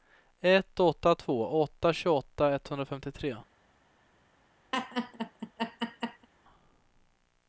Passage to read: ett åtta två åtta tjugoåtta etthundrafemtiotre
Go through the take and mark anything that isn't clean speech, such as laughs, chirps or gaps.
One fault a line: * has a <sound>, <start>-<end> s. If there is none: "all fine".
* has a laugh, 4.7-6.3 s